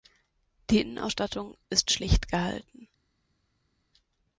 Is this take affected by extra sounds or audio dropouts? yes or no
no